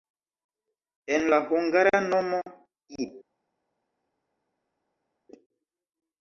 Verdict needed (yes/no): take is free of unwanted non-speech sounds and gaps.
yes